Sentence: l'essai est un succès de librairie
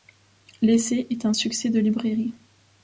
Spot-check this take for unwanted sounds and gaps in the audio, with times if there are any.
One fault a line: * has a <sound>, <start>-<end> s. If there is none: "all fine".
all fine